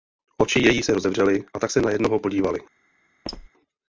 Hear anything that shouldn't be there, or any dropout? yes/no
yes